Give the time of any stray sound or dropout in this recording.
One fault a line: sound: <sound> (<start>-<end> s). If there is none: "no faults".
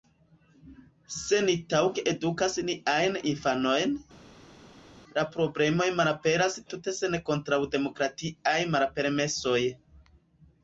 no faults